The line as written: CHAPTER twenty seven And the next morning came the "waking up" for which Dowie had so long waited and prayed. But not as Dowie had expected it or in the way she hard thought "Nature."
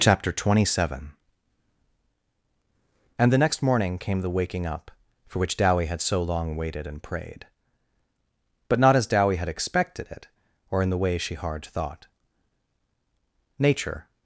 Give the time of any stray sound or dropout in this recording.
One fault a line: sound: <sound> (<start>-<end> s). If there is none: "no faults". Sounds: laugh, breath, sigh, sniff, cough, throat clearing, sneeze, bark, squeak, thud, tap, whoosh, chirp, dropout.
no faults